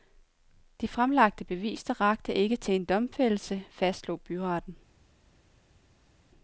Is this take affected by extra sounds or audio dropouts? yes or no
no